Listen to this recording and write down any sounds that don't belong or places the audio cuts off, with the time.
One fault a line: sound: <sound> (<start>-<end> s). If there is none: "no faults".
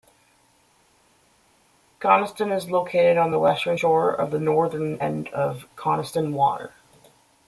no faults